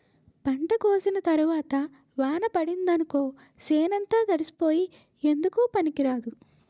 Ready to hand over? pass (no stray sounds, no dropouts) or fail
pass